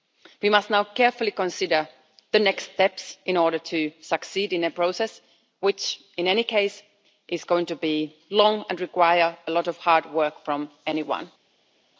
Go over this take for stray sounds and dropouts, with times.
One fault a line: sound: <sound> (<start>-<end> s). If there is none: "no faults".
no faults